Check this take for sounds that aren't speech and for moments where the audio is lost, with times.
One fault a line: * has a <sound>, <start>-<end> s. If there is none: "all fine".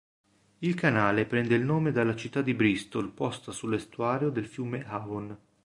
all fine